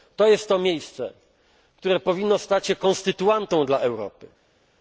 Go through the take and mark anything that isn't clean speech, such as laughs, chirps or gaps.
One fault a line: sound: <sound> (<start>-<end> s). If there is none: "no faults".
no faults